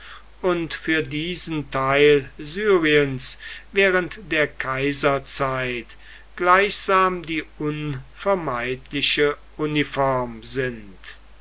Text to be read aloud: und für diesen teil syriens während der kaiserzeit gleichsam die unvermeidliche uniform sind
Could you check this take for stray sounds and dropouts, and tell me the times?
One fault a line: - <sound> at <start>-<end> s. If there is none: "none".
none